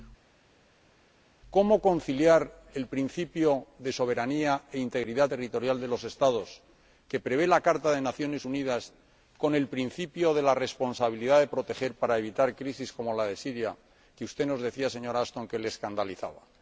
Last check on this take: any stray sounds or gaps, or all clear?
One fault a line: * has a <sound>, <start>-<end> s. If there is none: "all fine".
all fine